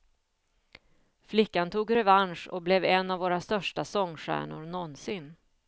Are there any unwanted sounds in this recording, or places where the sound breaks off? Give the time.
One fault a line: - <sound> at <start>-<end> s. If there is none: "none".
none